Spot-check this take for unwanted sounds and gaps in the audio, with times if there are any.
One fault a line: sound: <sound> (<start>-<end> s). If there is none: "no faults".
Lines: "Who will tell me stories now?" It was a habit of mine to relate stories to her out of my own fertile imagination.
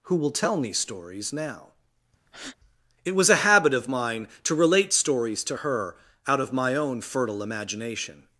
sound: breath (2.3-2.6 s)